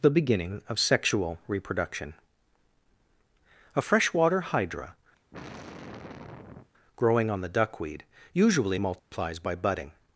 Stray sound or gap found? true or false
true